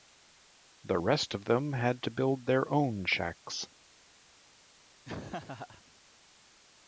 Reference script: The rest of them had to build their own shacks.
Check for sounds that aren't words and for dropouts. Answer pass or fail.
fail